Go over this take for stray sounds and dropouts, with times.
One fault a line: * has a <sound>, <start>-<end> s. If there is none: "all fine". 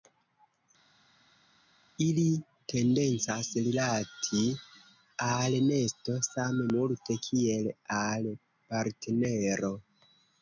all fine